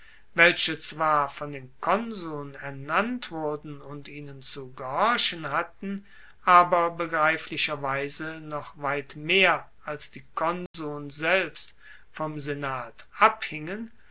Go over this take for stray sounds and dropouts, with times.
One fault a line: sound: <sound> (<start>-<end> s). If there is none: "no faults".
sound: dropout (10.7-10.7 s)